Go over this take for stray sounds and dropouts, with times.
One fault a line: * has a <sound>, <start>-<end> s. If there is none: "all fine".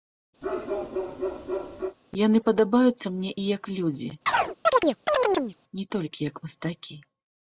* has a bark, 0.4-2.0 s
* has a chirp, 4.3-5.6 s